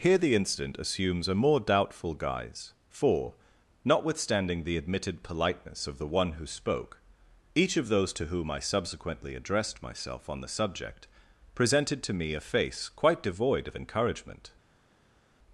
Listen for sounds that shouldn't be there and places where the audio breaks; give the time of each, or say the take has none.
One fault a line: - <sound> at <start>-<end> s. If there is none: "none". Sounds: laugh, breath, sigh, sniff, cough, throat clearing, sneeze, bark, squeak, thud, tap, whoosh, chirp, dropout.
none